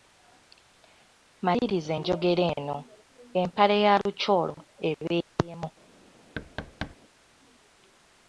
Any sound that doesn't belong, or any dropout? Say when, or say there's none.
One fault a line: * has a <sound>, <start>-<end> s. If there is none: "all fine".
* has a thud, 6.4-7.0 s